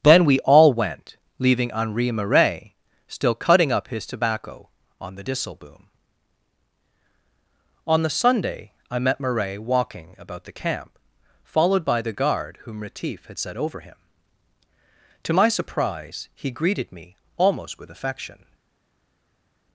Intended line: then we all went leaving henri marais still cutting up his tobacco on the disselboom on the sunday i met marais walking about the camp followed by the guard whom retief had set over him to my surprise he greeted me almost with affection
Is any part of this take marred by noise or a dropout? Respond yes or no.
no